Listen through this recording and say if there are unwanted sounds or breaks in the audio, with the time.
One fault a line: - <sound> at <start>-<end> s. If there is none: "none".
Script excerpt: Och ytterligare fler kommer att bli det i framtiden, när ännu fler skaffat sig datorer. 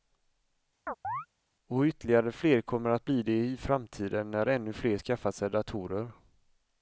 - chirp at 0.9-1.3 s